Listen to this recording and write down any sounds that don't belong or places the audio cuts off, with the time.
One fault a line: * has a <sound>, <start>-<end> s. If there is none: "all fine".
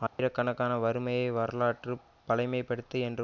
* has a dropout, 0.1-0.2 s